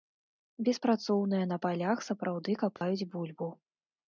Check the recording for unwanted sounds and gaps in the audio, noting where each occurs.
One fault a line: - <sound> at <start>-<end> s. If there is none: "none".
- dropout at 2.8-2.8 s